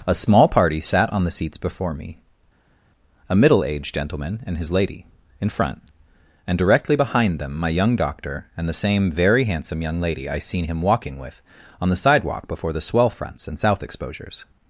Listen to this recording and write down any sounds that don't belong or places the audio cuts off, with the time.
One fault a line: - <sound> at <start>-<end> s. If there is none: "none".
none